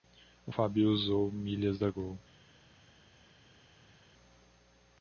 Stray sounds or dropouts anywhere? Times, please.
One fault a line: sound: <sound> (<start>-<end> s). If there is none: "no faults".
no faults